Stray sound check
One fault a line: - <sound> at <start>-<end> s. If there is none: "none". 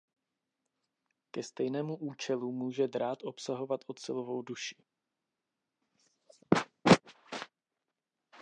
none